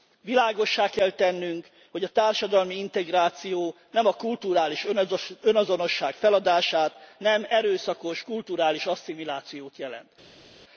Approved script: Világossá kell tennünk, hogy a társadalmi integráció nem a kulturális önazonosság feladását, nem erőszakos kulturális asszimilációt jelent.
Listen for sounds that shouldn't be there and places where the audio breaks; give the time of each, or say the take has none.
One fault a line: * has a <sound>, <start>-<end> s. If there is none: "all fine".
all fine